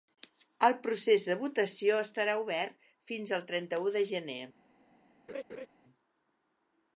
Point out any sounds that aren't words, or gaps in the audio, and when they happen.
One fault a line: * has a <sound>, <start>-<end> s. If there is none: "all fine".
* has a laugh, 5.3-5.7 s